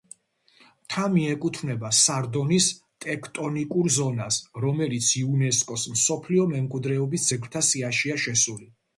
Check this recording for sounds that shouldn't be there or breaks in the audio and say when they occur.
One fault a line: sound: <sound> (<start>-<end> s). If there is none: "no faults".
no faults